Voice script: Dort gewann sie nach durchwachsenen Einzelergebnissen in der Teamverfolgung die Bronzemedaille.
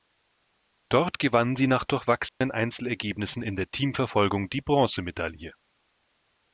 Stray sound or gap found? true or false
true